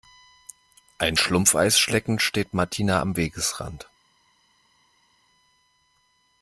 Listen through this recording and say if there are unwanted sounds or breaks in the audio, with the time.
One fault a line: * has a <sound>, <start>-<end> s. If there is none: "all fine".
all fine